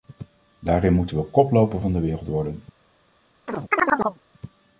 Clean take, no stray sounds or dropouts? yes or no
no